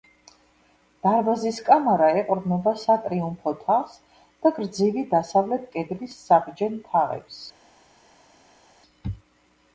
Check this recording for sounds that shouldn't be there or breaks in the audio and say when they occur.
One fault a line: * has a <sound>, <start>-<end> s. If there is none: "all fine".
all fine